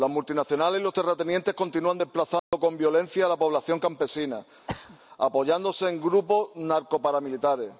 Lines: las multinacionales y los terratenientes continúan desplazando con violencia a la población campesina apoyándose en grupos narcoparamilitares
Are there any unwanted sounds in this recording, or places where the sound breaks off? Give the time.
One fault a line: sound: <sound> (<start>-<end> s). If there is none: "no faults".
sound: dropout (2.4-2.5 s)
sound: throat clearing (4.7-5.0 s)